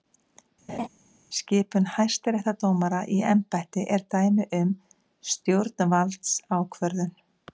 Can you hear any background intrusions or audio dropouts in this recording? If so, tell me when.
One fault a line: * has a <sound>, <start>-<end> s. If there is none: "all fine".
* has a laugh, 0.7-0.9 s